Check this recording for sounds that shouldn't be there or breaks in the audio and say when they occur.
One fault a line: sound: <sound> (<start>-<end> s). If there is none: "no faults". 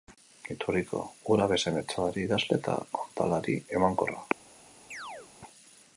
sound: chirp (4.9-5.3 s)